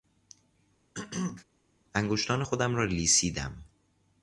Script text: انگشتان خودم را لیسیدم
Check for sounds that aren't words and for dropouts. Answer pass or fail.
fail